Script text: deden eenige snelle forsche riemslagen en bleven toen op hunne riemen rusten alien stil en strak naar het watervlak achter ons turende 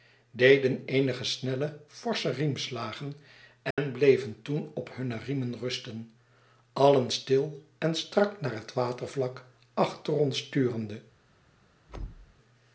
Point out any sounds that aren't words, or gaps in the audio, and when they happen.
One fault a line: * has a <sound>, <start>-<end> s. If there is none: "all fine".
* has a dropout, 3.7-3.8 s
* has a thud, 11.9-12.3 s